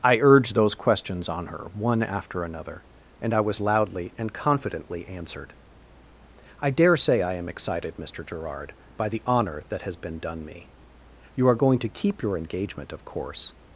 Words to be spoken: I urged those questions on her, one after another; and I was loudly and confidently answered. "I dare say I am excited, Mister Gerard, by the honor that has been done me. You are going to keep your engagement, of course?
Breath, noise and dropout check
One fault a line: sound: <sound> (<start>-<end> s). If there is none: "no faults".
no faults